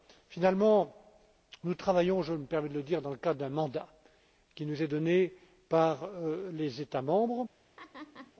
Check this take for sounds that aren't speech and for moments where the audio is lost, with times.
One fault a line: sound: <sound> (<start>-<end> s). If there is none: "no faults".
sound: laugh (7.8-8.3 s)